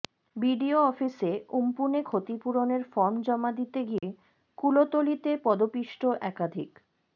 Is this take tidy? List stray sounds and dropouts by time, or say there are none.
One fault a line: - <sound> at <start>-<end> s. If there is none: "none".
- dropout at 4.0-4.0 s